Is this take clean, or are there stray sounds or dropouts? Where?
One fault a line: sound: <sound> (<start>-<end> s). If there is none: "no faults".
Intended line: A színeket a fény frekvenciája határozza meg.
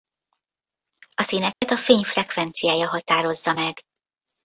sound: dropout (1.5-1.6 s)